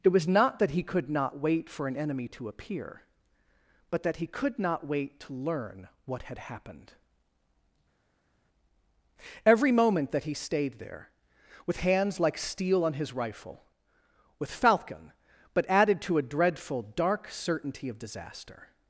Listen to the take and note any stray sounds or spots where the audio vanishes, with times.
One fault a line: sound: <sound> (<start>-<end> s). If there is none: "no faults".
no faults